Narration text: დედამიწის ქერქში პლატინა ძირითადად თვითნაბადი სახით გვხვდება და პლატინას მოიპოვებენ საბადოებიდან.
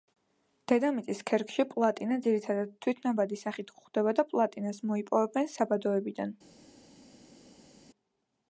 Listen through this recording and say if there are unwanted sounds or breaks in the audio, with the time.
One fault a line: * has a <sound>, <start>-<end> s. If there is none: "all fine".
all fine